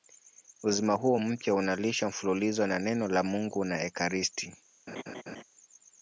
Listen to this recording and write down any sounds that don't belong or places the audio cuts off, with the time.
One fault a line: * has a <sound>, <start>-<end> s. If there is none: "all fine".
* has a laugh, 4.9-5.4 s